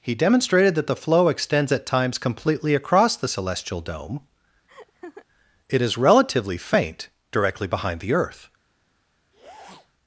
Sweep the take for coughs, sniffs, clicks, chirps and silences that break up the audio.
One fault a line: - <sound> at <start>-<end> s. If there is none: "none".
- laugh at 4.7-5.3 s
- sniff at 9.3-9.9 s